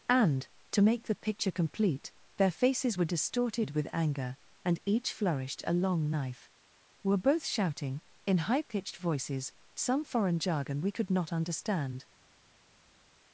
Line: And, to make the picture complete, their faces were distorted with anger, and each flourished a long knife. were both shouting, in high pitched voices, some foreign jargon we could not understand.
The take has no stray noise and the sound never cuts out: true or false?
true